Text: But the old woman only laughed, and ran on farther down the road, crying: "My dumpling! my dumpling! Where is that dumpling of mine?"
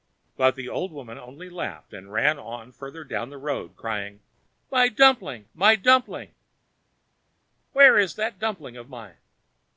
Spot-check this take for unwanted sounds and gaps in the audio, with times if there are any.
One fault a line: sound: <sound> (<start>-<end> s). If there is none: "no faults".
no faults